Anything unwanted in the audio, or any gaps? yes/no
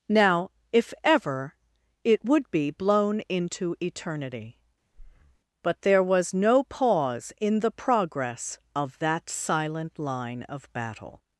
yes